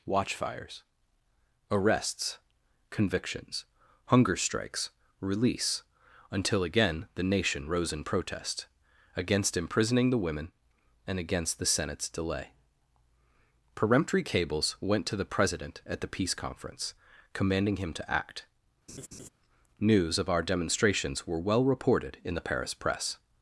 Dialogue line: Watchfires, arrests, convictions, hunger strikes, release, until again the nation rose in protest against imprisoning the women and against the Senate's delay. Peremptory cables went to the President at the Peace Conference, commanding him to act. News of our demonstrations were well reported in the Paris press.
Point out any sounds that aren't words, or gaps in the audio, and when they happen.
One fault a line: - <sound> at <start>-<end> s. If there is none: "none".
- laugh at 18.9-19.3 s